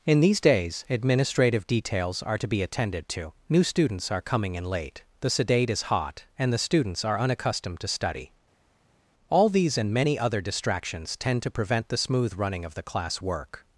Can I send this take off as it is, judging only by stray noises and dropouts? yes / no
yes